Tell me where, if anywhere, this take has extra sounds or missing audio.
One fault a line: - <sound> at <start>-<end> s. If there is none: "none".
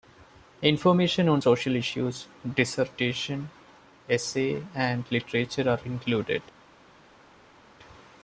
none